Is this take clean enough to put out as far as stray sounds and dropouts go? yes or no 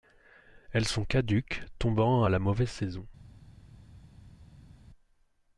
yes